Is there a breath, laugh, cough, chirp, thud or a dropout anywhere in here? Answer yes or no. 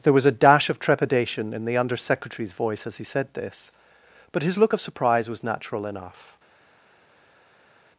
no